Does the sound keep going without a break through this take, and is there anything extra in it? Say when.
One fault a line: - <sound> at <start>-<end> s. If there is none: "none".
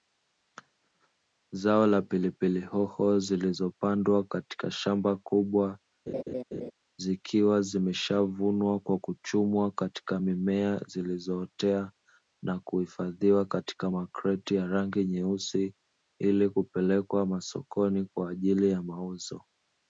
- laugh at 6.1-6.7 s